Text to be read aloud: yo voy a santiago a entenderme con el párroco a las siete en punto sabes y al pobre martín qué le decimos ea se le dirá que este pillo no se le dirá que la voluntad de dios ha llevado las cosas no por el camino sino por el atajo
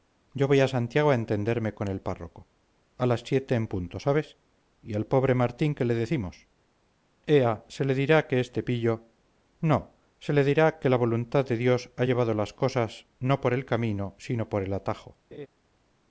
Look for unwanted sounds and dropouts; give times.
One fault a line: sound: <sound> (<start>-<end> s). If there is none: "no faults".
sound: laugh (15.3-15.5 s)